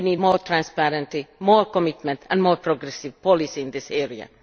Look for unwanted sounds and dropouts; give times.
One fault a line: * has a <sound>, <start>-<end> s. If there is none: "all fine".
all fine